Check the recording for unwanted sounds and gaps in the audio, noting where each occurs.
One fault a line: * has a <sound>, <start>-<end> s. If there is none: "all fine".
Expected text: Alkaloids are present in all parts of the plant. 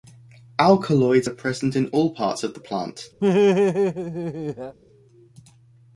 * has a laugh, 3.2-4.8 s